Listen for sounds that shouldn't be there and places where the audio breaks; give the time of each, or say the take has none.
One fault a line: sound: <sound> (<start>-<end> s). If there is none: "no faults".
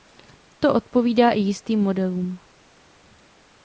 no faults